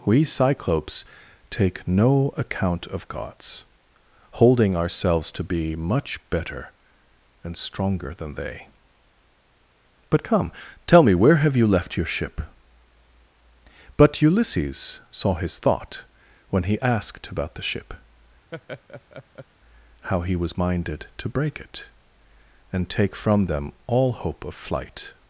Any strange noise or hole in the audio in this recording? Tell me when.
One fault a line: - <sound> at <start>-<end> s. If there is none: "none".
- laugh at 18.5-19.5 s